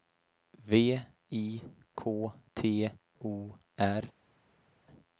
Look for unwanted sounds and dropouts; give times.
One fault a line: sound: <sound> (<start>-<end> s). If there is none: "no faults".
no faults